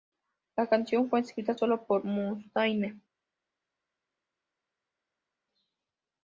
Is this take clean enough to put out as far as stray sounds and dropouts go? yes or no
yes